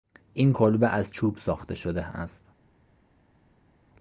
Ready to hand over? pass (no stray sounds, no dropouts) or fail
pass